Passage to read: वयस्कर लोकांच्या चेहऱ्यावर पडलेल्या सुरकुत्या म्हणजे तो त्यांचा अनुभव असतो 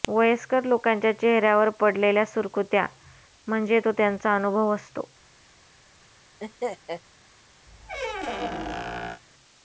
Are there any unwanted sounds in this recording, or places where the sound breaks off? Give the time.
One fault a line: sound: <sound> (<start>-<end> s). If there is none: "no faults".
sound: laugh (6.4-7.0 s)
sound: squeak (7.7-9.2 s)